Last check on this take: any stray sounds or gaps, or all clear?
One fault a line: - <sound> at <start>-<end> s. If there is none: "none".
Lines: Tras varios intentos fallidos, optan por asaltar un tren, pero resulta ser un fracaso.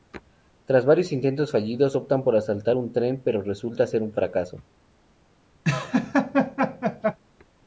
- laugh at 5.6-7.2 s